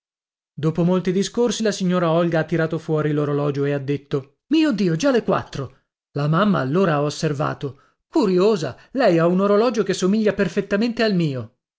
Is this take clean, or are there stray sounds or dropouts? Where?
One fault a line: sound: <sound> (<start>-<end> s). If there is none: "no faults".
no faults